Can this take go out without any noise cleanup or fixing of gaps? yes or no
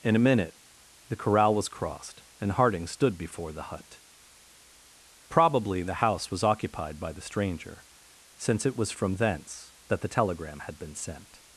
yes